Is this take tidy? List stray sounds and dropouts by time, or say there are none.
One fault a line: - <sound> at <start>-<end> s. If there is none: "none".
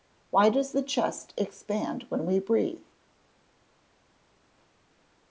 none